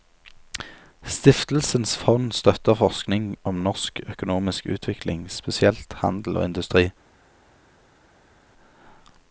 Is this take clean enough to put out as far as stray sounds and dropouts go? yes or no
yes